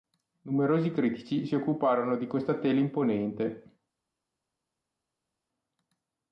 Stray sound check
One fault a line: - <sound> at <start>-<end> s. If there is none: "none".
none